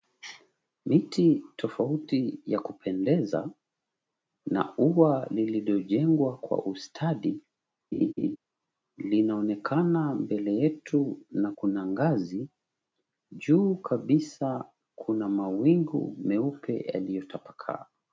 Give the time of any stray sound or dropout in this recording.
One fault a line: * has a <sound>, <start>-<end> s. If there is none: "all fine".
* has a laugh, 7.9-8.4 s